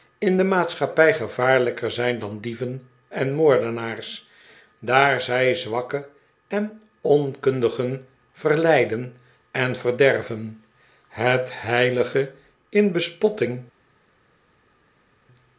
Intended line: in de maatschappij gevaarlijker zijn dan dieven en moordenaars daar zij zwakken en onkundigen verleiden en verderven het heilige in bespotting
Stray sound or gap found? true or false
false